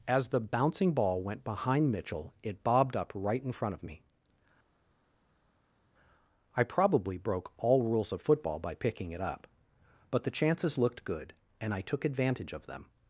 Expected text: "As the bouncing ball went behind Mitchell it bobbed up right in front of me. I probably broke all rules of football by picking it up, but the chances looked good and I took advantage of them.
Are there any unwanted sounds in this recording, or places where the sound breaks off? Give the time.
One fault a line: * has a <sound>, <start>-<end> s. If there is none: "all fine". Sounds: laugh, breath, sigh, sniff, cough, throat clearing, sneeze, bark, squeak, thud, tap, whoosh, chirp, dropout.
all fine